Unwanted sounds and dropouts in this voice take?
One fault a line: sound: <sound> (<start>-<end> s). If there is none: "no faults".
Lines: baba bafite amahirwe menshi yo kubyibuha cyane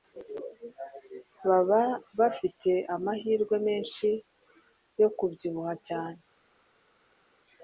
no faults